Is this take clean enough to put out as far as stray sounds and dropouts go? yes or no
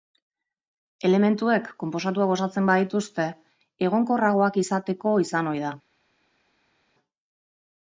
yes